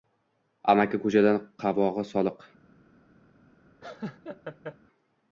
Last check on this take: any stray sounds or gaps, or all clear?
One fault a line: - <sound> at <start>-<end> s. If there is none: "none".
- laugh at 3.8-4.8 s